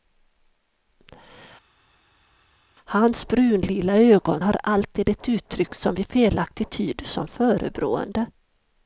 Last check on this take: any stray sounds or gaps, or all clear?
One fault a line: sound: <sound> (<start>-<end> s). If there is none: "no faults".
no faults